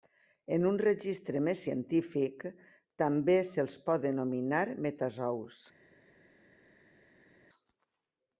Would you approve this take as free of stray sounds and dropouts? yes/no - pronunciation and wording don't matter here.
yes